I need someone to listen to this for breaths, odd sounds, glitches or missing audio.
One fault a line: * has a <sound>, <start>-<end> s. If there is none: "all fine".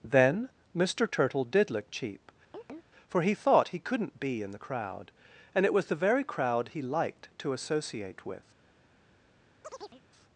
* has a chirp, 2.5-2.9 s
* has a chirp, 9.6-10.0 s